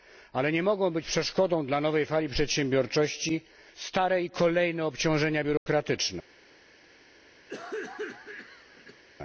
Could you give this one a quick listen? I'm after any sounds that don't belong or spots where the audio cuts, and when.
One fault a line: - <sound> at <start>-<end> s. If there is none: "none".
- dropout at 5.6-5.7 s
- cough at 7.5-9.0 s